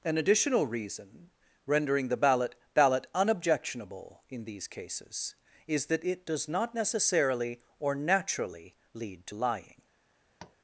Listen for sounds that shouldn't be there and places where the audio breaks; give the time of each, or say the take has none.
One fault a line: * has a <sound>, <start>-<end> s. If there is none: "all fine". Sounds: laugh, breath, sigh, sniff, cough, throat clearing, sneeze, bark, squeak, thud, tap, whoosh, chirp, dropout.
* has a tap, 10.4-10.6 s